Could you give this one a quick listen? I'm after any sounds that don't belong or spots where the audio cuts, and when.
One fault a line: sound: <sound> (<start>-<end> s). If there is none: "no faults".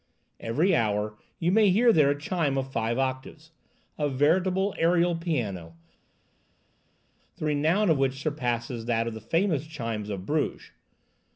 no faults